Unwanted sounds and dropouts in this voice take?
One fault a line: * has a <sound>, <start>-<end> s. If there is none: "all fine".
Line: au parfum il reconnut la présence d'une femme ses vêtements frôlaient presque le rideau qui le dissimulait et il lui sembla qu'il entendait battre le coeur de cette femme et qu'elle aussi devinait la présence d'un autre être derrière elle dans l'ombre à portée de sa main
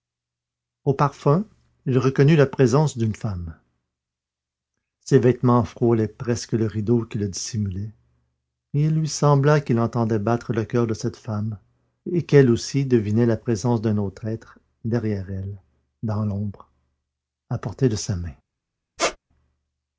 * has a squeak, 19.0-19.2 s